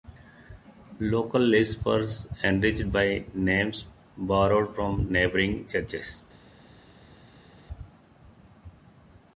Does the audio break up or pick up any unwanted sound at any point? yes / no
no